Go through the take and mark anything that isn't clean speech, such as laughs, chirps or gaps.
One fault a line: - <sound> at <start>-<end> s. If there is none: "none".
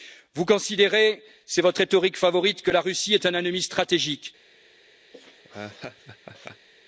- laugh at 5.1-6.7 s